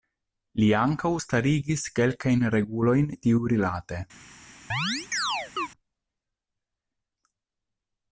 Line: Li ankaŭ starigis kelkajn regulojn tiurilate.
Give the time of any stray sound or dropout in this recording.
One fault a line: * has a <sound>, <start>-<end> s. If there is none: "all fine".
* has a chirp, 4.7-5.7 s